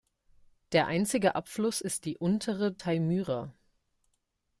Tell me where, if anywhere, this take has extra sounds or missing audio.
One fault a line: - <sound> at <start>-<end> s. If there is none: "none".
none